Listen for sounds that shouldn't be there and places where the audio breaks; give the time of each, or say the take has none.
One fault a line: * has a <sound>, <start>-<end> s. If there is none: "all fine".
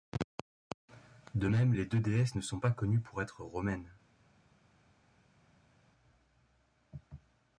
all fine